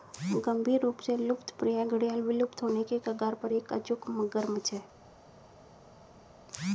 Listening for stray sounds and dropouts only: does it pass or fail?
pass